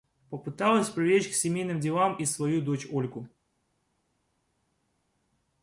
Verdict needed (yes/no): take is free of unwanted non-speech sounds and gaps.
yes